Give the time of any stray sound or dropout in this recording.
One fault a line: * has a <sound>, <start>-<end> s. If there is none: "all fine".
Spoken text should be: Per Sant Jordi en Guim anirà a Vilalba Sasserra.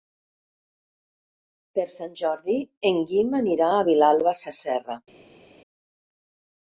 all fine